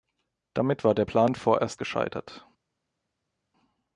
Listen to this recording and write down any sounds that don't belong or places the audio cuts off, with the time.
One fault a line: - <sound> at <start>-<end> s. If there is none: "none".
none